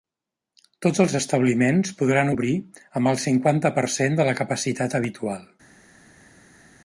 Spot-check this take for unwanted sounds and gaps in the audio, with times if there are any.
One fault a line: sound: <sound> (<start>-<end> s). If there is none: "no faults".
no faults